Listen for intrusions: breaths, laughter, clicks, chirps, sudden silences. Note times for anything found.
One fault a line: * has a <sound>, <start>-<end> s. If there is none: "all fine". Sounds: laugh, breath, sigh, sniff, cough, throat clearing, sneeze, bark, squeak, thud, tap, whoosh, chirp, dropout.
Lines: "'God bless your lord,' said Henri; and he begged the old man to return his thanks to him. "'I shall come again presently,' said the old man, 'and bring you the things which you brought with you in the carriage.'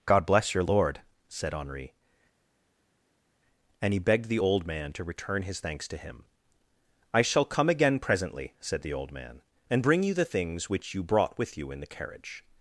all fine